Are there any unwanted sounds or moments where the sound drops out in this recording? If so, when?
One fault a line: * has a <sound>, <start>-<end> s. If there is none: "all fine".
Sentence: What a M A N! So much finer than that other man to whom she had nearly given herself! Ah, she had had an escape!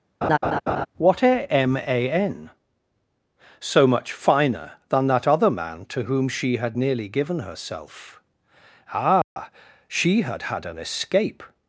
* has a laugh, 0.2-0.9 s
* has a dropout, 9.2-9.4 s